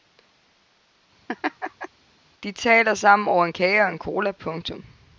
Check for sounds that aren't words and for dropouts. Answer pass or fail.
fail